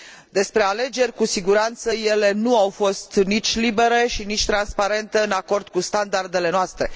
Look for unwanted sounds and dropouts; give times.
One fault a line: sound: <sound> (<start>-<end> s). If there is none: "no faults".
no faults